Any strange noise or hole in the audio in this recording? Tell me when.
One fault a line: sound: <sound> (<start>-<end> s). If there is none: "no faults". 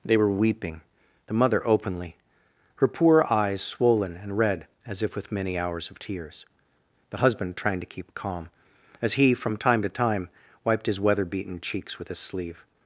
no faults